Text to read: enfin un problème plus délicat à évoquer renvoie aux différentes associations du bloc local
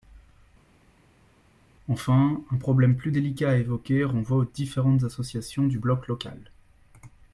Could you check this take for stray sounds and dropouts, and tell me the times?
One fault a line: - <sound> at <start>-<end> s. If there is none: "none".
none